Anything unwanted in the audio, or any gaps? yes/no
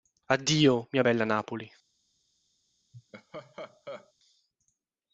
yes